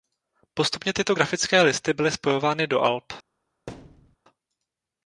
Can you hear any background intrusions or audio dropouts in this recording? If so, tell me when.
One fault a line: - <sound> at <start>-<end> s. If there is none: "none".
- thud at 3.7-4.2 s